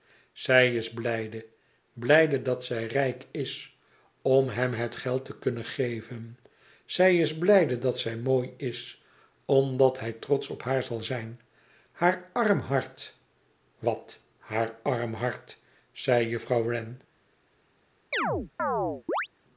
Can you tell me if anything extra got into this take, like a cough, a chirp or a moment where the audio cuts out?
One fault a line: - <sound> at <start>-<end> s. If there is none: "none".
- chirp at 18.1-19.3 s